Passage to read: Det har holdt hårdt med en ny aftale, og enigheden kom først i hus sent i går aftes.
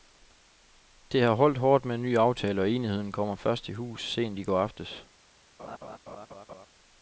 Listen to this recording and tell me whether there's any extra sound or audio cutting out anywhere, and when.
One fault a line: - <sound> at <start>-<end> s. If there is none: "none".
- laugh at 5.6-6.7 s